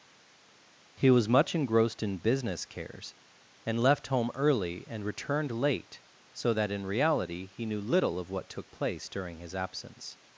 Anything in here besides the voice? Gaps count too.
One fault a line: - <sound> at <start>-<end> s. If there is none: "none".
none